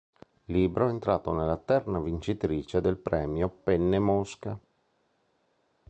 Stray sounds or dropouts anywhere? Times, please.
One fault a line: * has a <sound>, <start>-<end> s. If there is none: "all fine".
all fine